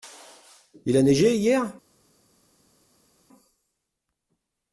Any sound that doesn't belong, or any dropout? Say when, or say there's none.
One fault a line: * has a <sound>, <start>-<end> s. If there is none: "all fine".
all fine